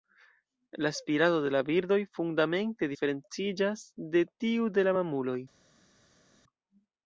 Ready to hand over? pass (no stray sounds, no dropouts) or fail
pass